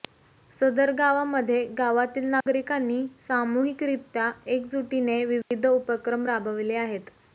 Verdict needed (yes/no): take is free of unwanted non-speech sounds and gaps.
no